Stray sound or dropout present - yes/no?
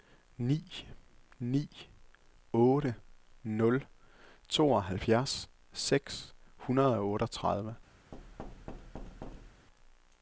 yes